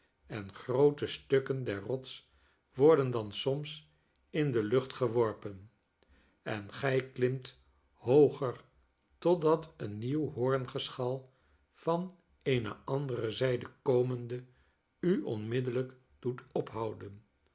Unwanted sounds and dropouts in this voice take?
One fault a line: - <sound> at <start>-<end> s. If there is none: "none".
none